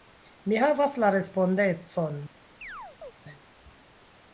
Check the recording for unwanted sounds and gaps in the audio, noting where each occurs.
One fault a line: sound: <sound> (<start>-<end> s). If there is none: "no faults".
sound: chirp (2.6-3.1 s)